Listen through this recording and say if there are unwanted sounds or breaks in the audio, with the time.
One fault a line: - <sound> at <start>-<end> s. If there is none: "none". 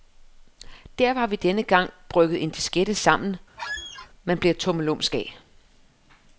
- squeak at 3.6-4.1 s